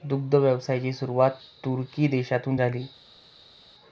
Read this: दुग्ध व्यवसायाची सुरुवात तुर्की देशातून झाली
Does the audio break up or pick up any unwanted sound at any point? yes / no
no